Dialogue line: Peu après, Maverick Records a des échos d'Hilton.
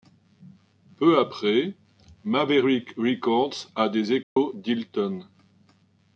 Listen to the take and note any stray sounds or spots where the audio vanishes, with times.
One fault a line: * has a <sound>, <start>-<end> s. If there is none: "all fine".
* has a dropout, 4.2-4.4 s